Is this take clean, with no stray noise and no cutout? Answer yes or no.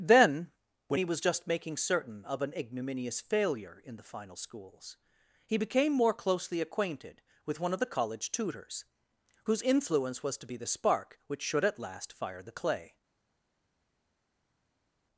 yes